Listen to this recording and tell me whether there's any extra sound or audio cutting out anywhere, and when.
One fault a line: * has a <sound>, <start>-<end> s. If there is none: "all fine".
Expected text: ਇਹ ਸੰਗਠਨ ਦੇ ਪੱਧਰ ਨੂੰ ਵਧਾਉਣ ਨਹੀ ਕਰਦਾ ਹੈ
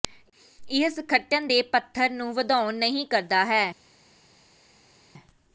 all fine